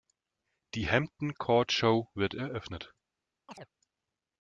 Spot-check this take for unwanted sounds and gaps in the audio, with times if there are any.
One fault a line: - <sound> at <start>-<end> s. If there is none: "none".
- chirp at 3.5-3.7 s